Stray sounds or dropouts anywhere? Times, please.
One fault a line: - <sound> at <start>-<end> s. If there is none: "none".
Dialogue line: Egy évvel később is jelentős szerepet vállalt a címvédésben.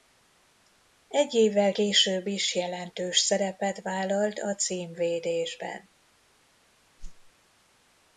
- whoosh at 7.0-7.3 s